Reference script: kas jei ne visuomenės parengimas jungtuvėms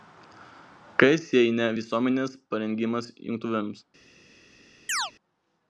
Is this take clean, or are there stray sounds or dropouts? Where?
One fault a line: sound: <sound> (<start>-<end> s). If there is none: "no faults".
sound: chirp (4.9-5.1 s)